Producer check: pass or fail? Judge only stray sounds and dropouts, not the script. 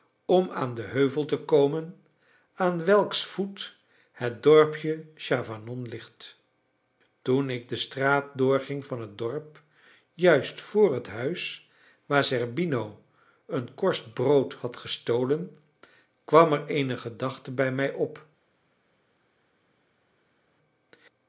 pass